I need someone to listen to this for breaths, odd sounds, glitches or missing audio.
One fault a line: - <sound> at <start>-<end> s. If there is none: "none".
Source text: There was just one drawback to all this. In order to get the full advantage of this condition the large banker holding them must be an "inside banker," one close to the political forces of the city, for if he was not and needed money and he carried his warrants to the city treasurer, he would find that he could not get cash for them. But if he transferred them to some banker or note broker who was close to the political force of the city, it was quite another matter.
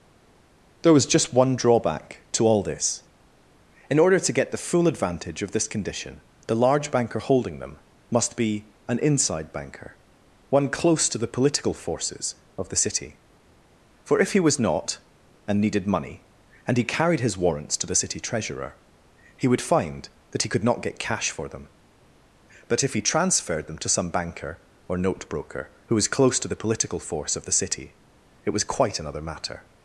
none